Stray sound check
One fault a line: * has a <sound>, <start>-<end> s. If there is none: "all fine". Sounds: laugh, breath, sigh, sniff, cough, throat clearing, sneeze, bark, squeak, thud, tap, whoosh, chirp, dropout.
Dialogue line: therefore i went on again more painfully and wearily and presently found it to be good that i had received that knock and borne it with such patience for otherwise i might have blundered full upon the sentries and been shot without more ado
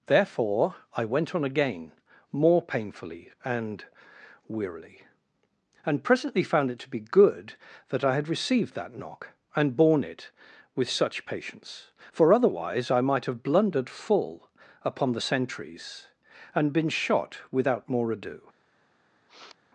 * has a sniff, 19.3-19.6 s